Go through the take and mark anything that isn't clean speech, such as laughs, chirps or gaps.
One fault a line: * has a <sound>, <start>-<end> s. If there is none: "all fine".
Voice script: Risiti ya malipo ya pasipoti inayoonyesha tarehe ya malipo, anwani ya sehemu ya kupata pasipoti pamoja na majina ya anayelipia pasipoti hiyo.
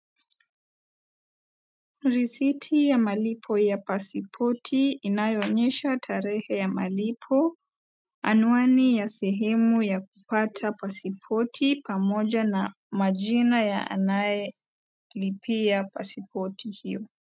all fine